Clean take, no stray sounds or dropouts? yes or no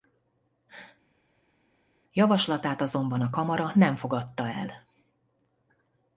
yes